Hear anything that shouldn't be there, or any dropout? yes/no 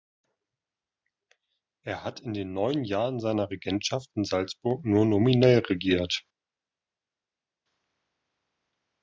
no